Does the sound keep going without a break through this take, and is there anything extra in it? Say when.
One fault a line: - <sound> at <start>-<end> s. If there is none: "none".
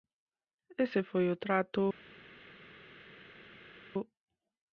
none